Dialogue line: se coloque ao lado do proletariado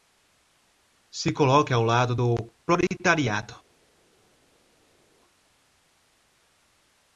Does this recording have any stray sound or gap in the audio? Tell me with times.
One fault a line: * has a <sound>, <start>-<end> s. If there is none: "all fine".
all fine